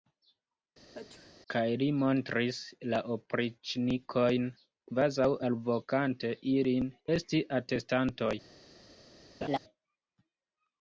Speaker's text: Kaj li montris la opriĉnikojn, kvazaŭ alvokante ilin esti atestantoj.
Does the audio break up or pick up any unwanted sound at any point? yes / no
yes